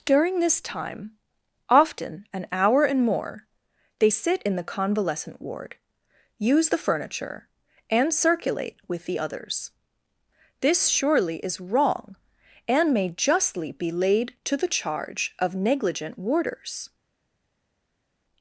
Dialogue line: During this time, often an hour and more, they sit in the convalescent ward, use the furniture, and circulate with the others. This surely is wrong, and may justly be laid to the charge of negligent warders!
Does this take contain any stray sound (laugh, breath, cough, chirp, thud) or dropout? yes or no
no